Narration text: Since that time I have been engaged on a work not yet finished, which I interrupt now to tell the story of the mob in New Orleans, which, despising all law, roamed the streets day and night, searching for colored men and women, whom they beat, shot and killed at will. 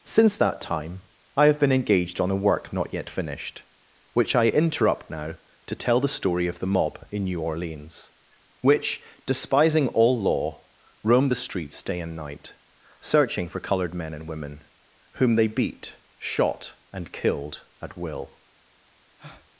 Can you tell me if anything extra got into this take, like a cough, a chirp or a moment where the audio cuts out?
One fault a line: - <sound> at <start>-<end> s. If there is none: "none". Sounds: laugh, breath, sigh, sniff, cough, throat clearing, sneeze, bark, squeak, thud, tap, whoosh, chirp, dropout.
- breath at 19.2-19.5 s